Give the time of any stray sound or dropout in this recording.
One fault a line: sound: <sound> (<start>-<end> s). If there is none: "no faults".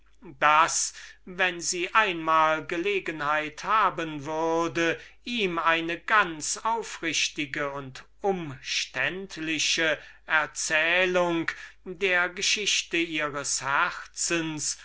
no faults